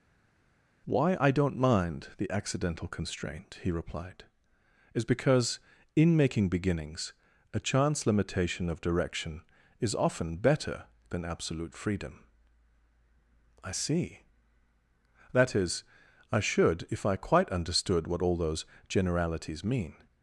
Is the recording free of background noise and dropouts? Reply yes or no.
yes